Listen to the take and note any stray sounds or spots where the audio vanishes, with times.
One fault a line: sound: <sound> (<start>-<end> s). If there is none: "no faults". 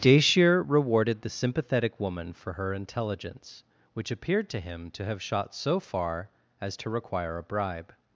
no faults